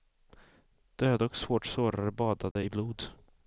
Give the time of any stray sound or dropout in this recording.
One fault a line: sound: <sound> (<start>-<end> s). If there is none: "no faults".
sound: dropout (2.5-2.6 s)